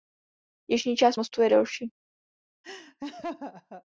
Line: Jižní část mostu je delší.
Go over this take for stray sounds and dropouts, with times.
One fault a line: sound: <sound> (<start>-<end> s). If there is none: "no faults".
sound: laugh (2.6-3.8 s)